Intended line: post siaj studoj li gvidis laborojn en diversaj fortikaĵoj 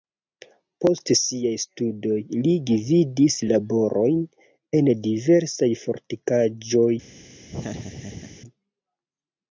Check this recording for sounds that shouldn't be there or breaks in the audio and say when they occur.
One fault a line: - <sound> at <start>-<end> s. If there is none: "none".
- laugh at 7.5-8.4 s